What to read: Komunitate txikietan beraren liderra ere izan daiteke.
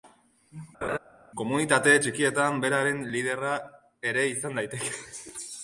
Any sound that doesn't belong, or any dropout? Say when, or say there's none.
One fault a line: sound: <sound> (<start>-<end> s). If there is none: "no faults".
sound: laugh (0.8-1.0 s)